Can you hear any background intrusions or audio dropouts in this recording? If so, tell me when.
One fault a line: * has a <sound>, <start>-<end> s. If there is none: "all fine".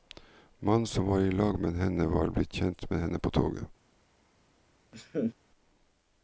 * has a laugh, 4.9-5.3 s